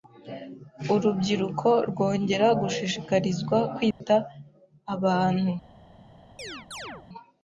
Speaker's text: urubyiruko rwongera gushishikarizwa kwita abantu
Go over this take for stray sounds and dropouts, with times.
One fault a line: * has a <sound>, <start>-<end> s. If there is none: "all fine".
* has a dropout, 3.9-4.0 s
* has a chirp, 6.4-7.1 s